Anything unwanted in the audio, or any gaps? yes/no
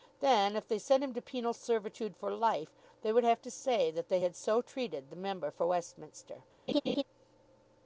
yes